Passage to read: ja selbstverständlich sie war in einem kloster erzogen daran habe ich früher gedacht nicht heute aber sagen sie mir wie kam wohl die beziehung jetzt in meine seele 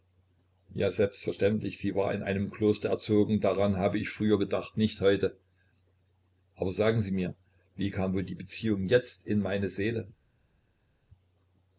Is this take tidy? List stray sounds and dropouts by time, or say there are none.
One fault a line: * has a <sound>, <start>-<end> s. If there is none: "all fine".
all fine